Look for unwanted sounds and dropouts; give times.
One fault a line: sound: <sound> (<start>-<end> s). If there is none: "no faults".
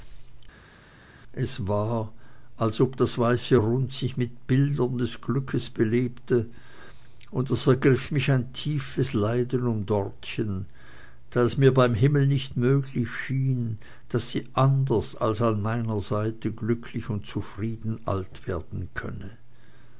no faults